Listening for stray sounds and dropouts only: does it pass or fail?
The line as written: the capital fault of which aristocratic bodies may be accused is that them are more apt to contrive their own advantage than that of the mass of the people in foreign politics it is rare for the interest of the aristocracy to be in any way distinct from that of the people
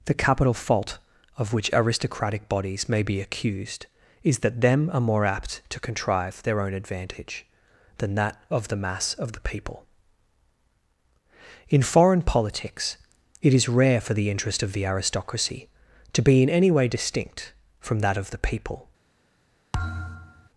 fail